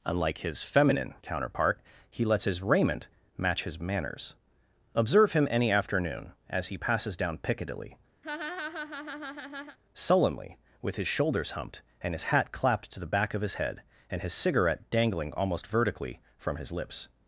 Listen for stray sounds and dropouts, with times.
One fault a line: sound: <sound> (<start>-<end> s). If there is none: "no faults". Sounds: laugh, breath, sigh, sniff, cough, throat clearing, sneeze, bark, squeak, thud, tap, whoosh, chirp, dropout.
sound: laugh (8.2-9.8 s)